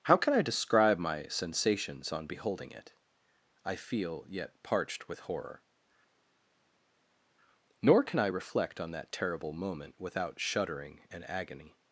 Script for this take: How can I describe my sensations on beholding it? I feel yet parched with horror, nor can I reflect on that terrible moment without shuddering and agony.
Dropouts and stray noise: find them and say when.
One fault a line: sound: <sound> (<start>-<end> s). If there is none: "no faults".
no faults